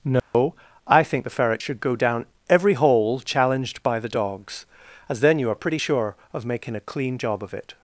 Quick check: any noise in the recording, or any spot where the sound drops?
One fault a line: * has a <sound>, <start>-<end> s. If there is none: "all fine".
* has a dropout, 0.2-0.3 s